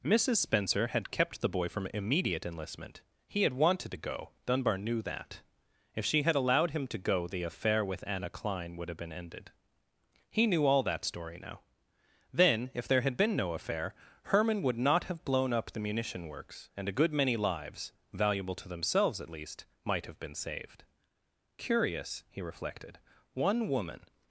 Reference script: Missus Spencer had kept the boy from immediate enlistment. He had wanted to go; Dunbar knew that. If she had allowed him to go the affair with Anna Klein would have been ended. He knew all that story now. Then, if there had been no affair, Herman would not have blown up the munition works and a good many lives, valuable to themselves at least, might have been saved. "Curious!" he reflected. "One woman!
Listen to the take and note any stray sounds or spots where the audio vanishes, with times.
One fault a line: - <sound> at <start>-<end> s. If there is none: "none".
none